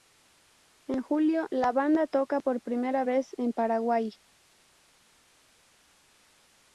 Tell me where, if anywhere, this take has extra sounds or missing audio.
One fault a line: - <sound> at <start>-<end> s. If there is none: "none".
none